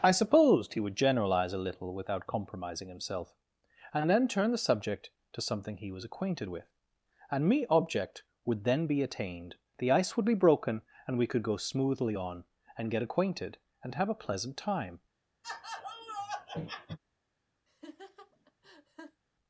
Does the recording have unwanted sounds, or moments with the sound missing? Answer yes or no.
yes